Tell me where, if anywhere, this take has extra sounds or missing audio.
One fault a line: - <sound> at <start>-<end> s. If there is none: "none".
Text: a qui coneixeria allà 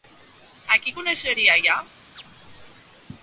- chirp at 2.1-2.2 s